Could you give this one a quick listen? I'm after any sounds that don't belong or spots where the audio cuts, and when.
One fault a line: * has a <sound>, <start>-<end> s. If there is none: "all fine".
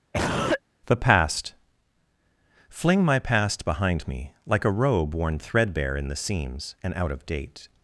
* has a cough, 0.1-0.6 s